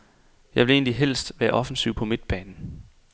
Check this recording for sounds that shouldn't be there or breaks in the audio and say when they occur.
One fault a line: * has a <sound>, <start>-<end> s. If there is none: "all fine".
all fine